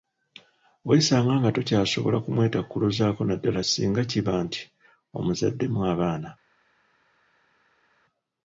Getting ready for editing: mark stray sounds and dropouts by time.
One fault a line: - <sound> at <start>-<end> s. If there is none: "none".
none